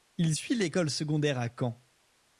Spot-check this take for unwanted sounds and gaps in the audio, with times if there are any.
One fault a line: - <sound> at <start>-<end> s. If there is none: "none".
none